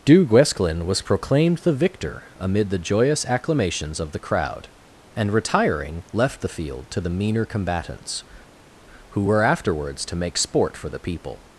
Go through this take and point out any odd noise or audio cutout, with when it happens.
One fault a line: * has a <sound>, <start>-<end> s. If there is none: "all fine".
all fine